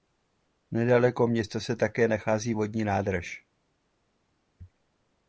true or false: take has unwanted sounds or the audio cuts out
false